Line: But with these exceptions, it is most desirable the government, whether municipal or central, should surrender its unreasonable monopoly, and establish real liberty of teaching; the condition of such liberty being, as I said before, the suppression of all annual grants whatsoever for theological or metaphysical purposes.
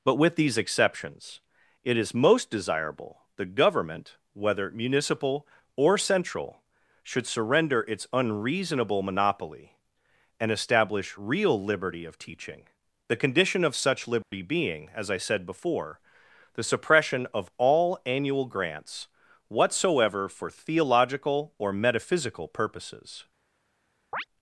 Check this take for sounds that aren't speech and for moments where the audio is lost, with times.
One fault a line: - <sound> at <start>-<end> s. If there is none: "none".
- dropout at 14.2-14.3 s
- chirp at 24.1-24.2 s